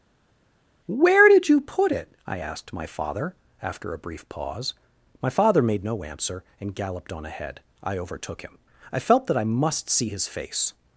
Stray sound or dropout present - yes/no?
no